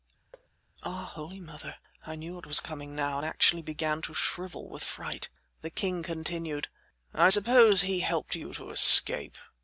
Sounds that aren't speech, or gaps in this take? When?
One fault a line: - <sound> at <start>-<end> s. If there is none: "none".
- thud at 0.3-0.5 s